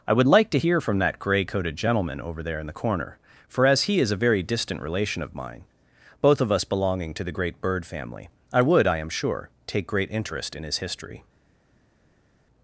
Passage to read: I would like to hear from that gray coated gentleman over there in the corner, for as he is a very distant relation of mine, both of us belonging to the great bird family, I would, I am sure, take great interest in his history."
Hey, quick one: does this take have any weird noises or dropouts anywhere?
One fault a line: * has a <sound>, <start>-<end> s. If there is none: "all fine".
all fine